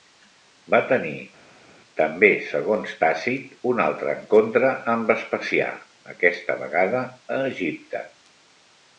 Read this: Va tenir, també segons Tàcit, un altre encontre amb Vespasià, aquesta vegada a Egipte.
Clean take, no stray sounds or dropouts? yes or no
yes